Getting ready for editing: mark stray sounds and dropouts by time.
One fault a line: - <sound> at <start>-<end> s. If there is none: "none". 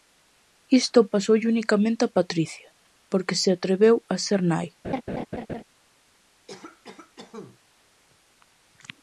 - laugh at 4.8-5.6 s
- cough at 6.5-7.6 s